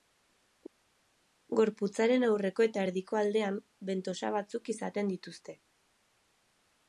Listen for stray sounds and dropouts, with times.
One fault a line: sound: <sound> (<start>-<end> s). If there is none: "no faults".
no faults